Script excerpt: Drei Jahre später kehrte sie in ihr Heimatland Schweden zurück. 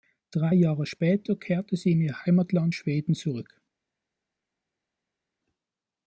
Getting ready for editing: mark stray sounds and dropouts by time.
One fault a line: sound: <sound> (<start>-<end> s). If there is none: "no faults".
no faults